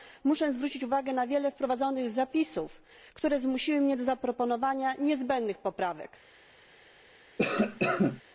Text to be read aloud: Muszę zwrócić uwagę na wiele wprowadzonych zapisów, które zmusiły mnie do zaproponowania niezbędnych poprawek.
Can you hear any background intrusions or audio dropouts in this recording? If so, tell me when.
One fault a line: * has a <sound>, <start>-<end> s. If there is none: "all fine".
* has a cough, 7.4-8.2 s